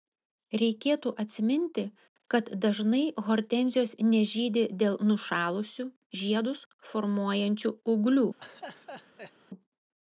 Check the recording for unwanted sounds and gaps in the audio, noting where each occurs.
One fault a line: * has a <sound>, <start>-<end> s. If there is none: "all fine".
* has a laugh, 8.4-9.3 s